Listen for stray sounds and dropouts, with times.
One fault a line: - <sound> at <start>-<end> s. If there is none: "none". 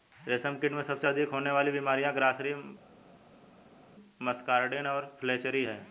none